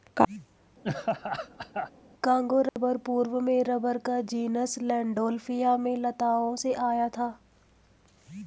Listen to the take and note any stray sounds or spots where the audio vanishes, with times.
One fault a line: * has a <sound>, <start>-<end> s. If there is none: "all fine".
* has a laugh, 0.8-1.9 s
* has a dropout, 2.7-2.8 s